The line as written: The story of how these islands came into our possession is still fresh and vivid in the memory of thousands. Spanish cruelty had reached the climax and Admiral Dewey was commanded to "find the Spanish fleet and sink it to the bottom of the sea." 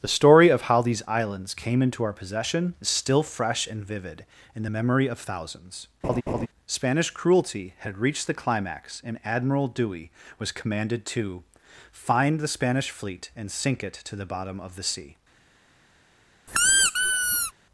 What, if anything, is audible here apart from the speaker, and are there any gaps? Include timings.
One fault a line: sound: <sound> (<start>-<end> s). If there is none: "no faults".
sound: laugh (6.0-6.5 s)
sound: squeak (16.5-17.5 s)